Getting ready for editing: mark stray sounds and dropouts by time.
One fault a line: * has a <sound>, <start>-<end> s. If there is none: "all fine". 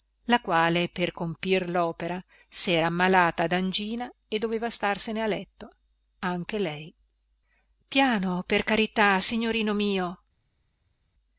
all fine